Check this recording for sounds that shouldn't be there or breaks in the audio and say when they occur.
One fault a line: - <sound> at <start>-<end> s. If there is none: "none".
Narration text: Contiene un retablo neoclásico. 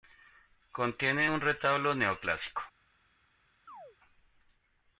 - chirp at 3.7-4.0 s